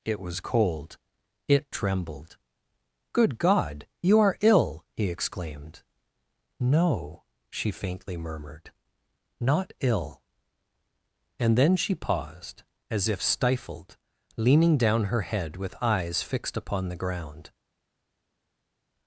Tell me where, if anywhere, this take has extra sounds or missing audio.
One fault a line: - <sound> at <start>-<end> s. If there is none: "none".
none